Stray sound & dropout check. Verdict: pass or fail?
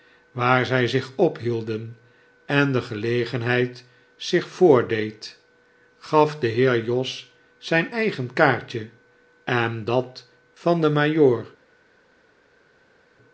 pass